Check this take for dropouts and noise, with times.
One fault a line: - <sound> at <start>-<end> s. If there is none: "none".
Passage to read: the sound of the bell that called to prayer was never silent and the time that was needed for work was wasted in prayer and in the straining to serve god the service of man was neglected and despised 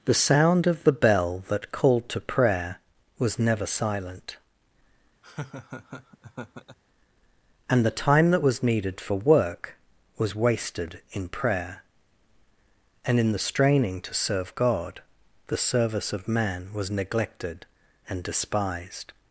- laugh at 5.2-6.8 s